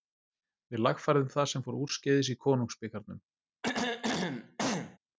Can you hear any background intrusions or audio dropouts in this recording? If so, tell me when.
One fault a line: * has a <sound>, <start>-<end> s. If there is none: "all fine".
* has a throat clearing, 3.6-5.0 s